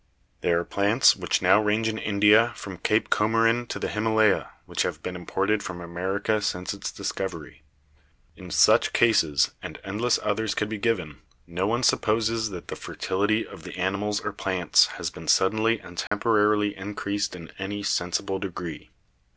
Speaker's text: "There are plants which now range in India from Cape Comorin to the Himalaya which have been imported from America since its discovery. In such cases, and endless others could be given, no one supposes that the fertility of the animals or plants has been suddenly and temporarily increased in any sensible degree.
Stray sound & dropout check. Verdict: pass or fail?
fail